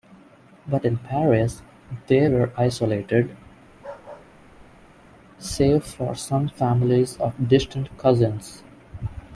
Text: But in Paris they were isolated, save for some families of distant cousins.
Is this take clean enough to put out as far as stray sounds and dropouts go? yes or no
no